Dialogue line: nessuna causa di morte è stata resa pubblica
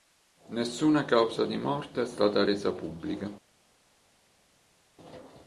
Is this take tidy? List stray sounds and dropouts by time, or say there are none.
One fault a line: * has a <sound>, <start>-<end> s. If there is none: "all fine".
all fine